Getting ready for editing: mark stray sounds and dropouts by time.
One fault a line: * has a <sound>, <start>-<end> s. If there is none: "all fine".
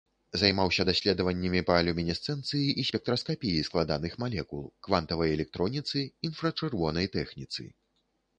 all fine